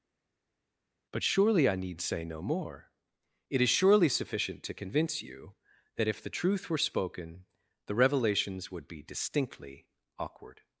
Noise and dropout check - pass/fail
pass